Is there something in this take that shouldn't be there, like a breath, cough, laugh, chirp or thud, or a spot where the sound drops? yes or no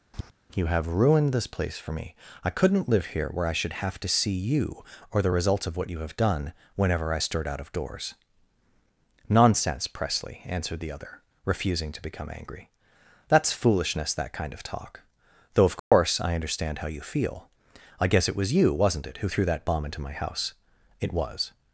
yes